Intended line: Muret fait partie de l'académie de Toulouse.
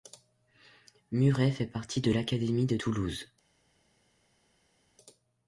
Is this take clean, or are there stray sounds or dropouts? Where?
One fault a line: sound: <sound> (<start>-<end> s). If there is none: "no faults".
no faults